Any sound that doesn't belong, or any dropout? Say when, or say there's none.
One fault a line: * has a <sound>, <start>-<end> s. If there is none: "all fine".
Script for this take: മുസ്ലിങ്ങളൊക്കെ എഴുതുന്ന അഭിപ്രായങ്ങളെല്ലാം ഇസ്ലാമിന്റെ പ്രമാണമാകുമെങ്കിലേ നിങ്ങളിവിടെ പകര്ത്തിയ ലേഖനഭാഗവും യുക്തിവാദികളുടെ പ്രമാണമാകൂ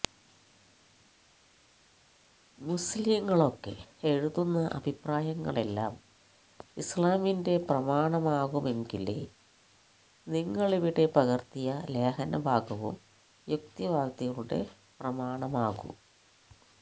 all fine